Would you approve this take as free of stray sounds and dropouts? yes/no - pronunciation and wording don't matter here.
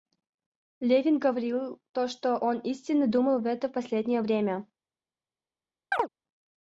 no